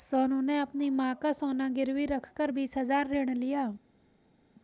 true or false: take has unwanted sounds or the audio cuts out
false